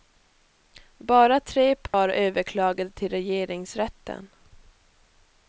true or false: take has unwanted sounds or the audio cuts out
true